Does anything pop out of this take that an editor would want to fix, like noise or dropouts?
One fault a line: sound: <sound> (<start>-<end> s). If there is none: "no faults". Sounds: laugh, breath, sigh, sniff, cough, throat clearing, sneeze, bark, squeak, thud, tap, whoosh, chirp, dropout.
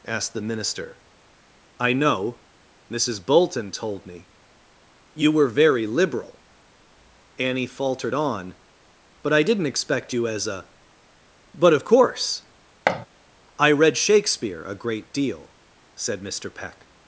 sound: thud (12.9-13.1 s)